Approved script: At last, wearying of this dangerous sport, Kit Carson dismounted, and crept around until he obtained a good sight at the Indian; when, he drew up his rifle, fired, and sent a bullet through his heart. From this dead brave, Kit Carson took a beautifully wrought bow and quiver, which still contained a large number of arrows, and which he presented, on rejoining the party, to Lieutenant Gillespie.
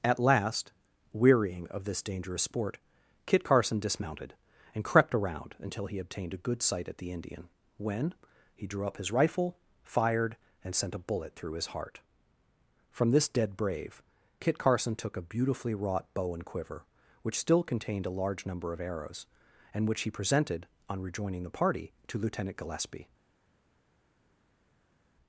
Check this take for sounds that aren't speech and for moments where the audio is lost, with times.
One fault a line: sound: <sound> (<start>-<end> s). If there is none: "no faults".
no faults